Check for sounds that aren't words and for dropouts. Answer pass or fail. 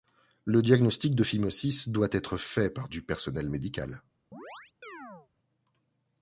fail